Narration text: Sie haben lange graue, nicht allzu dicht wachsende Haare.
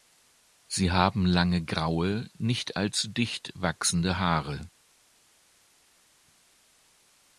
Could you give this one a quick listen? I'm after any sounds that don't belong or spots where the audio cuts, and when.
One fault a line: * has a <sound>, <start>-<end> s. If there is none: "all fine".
all fine